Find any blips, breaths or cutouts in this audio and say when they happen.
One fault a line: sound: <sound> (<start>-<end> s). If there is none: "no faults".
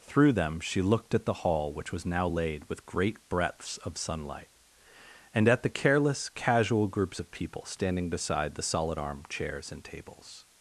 no faults